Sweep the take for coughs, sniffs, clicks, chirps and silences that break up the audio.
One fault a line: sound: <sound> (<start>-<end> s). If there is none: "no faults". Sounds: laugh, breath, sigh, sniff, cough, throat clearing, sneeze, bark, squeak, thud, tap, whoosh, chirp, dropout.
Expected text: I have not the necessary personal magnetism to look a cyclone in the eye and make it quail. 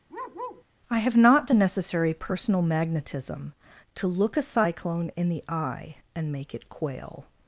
sound: bark (0.1-0.6 s)